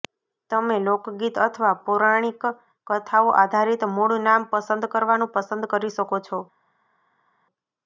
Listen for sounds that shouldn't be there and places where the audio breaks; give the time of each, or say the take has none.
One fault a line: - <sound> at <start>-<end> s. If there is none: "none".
none